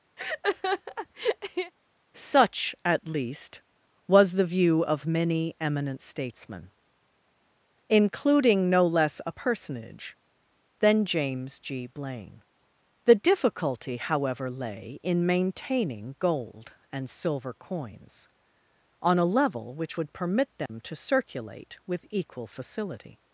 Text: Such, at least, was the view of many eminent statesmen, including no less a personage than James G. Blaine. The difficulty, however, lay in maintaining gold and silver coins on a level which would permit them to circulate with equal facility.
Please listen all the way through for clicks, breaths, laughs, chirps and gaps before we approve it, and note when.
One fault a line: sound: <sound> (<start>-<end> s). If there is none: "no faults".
sound: laugh (0.2-1.7 s)
sound: dropout (20.7-20.7 s)